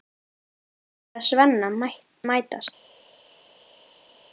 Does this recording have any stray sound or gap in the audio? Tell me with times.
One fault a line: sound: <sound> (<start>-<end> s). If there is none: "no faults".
no faults